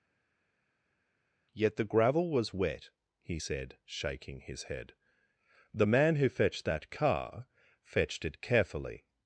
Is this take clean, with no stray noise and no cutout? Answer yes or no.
yes